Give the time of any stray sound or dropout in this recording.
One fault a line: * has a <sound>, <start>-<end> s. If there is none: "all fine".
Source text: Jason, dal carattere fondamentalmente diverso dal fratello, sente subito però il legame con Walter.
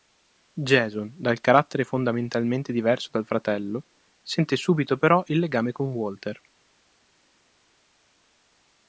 all fine